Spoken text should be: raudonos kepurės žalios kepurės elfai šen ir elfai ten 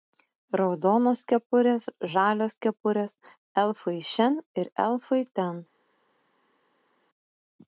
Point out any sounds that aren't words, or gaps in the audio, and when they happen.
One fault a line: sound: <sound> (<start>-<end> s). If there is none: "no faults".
no faults